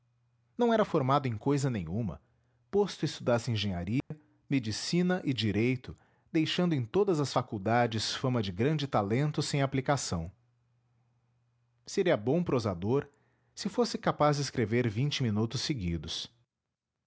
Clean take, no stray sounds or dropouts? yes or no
no